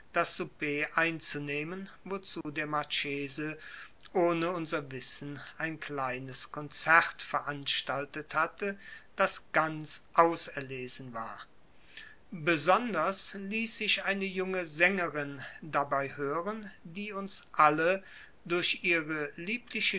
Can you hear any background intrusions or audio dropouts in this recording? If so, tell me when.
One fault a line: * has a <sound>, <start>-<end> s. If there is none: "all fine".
* has a dropout, 2.4-2.4 s